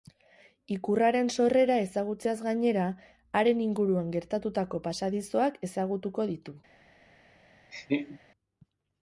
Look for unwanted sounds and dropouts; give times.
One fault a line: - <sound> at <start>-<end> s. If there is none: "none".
- laugh at 7.7-8.2 s